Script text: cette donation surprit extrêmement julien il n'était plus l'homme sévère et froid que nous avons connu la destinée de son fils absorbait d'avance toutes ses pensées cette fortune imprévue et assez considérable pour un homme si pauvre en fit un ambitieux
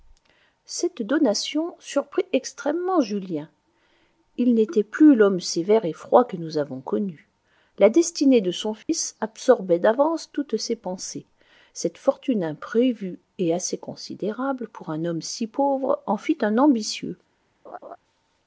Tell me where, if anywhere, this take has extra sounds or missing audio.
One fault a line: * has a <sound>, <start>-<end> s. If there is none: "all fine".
* has a dropout, 8.8-8.9 s
* has a laugh, 17.7-18.0 s